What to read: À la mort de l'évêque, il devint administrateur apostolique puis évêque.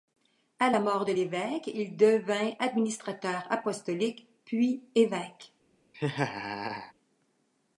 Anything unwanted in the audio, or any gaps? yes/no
yes